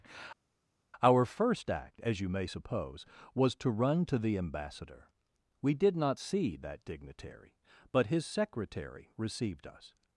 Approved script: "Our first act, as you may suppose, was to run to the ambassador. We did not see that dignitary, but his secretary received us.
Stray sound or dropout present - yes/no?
no